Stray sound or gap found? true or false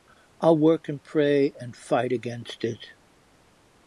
false